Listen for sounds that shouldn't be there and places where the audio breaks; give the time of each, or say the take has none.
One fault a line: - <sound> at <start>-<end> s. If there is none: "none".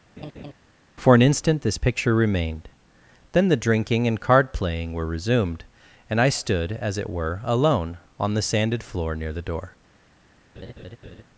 - laugh at 0.2-0.5 s
- laugh at 10.6-11.2 s